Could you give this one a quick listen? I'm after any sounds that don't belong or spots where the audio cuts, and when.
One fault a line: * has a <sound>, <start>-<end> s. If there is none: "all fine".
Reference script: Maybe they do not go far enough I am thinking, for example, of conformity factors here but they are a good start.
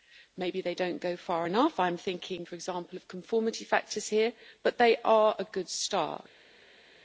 all fine